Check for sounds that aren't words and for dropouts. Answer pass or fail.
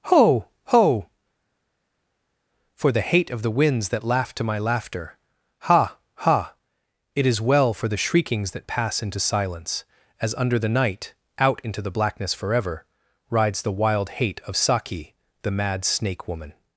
pass